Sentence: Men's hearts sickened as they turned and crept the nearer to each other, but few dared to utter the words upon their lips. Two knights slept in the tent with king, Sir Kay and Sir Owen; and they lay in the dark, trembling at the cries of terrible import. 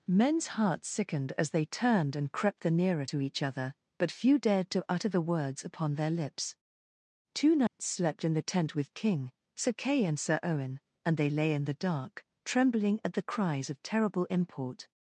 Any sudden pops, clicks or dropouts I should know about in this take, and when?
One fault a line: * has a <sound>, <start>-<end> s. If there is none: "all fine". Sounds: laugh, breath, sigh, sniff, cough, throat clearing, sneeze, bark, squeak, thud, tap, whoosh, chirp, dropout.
* has a dropout, 7.7-7.8 s